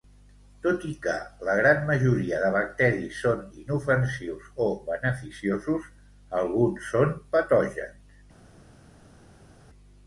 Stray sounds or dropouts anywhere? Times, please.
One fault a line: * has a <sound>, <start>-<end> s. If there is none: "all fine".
all fine